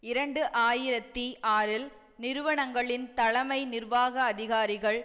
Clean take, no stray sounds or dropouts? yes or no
yes